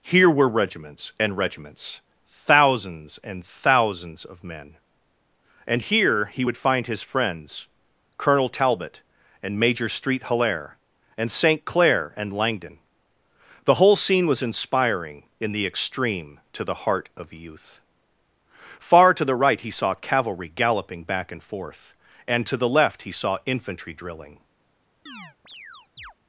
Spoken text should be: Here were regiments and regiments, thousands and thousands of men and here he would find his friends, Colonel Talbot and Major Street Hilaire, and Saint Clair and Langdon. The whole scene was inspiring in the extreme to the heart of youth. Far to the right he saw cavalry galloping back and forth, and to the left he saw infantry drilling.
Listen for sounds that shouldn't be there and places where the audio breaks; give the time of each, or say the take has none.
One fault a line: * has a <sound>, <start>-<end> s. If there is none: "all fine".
* has a chirp, 25.1-26.1 s